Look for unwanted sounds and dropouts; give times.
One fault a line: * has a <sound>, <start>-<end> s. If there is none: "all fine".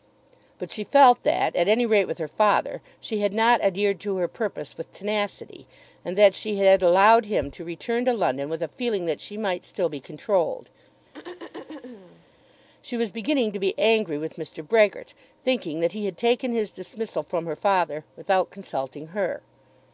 * has a throat clearing, 11.1-12.3 s